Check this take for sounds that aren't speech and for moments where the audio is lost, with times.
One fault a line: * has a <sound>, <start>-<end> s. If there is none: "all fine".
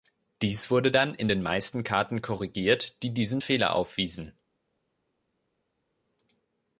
all fine